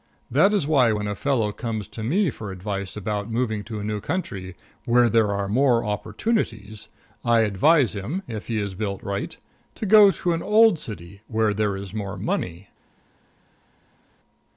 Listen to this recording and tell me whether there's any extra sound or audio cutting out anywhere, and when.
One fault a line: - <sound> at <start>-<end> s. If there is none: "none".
none